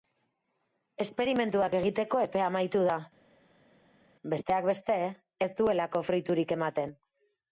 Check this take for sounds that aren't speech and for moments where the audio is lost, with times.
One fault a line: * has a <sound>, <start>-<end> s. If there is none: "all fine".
all fine